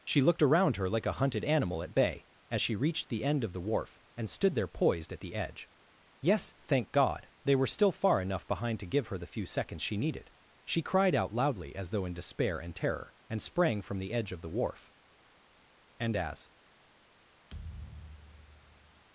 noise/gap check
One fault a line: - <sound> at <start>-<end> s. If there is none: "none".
- thud at 17.5-19.0 s